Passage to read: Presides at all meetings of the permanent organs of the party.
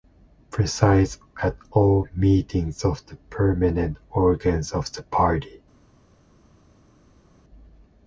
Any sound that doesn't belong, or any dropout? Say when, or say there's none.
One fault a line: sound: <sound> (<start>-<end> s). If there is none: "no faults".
no faults